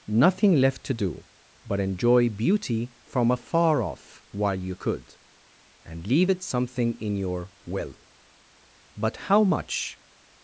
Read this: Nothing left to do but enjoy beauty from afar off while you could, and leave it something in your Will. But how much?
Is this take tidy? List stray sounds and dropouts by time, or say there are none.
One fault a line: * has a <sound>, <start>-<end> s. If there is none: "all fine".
all fine